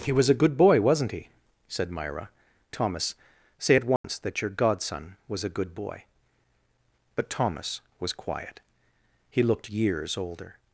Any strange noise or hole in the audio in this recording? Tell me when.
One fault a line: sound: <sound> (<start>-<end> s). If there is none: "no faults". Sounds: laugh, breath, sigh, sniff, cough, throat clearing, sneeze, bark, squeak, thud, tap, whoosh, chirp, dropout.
sound: dropout (4.0-4.0 s)